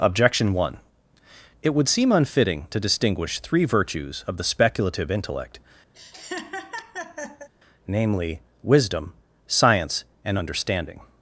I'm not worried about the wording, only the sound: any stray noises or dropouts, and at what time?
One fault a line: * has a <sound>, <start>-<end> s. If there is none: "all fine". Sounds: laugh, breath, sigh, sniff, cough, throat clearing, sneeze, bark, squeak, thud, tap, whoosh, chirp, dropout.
* has a laugh, 5.9-7.5 s